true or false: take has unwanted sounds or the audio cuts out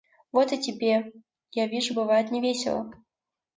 false